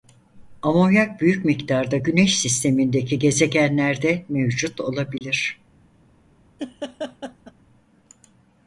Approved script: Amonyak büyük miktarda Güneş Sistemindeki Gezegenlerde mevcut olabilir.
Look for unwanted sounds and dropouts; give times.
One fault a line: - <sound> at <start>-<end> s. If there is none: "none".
- dropout at 5.2-5.2 s
- laugh at 6.6-7.5 s